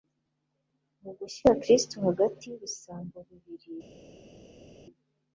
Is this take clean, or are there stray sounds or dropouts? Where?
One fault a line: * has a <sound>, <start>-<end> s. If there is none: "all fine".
all fine